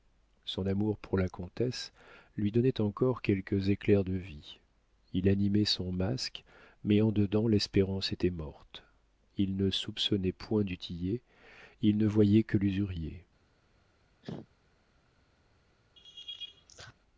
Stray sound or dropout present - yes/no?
yes